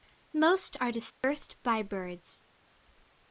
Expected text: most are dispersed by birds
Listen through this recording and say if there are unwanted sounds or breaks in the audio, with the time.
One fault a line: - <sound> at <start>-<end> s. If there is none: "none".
- dropout at 1.1-1.2 s